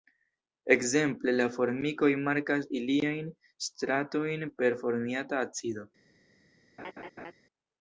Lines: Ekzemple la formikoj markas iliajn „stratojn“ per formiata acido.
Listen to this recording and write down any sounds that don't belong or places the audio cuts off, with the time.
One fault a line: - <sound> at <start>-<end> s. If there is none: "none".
- laugh at 6.8-7.3 s